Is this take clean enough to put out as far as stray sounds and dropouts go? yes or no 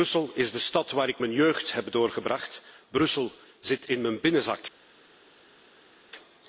yes